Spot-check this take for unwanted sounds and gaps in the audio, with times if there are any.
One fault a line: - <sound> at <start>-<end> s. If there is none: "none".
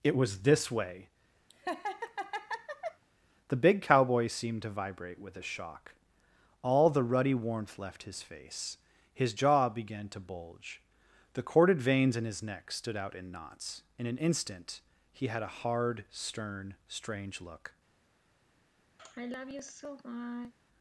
- laugh at 1.5-3.0 s
- sigh at 19.0-20.5 s